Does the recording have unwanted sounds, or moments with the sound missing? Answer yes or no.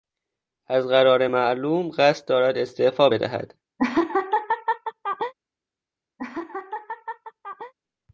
yes